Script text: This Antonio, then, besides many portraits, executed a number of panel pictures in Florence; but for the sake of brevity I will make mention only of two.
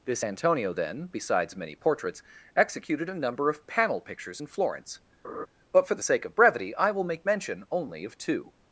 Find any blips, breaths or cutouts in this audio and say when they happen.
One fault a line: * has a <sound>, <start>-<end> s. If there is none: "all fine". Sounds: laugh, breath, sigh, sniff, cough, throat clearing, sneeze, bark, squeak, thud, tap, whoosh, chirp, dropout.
* has a laugh, 5.2-5.5 s